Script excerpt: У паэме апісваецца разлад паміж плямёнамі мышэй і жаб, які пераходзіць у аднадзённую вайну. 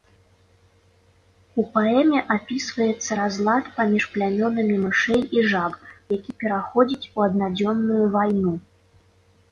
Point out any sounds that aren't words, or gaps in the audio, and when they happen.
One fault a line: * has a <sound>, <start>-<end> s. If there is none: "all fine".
all fine